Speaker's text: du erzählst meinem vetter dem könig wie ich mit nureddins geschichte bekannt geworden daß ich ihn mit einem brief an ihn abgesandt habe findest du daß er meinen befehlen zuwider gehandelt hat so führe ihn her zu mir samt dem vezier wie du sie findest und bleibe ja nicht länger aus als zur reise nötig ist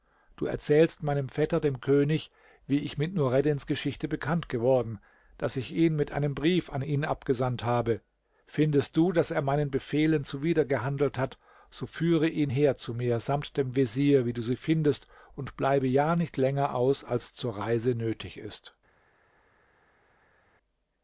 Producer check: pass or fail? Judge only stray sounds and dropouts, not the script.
pass